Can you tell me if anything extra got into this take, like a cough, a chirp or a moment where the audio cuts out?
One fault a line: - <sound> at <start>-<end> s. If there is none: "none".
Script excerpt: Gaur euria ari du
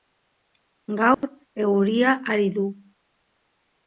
- dropout at 1.1-1.2 s